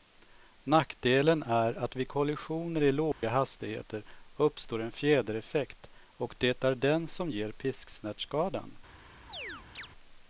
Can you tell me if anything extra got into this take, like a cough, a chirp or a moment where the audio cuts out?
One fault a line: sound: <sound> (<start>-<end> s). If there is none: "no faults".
sound: dropout (3.1-3.2 s)
sound: chirp (9.3-9.9 s)